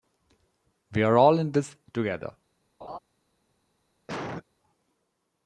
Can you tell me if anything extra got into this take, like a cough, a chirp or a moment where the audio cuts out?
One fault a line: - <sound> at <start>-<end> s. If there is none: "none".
- laugh at 2.8-3.0 s
- cough at 4.1-4.4 s